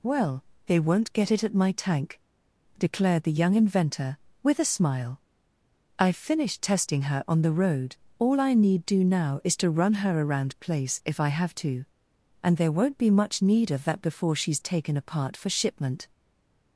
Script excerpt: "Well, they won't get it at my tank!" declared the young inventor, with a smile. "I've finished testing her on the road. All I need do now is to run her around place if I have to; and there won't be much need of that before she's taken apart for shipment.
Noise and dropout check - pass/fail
pass